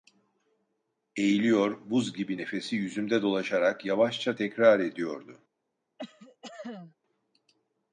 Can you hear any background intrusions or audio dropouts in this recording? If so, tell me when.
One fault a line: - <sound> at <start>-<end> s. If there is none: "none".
- cough at 6.0-7.0 s